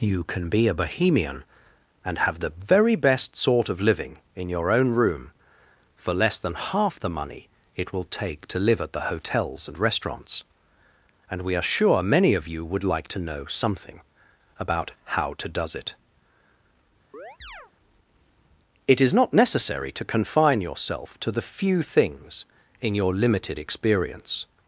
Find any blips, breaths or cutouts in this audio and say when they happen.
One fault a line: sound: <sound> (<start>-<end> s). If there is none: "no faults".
sound: chirp (17.1-17.7 s)